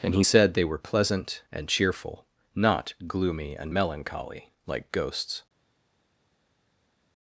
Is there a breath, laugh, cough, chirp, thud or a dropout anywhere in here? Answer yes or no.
no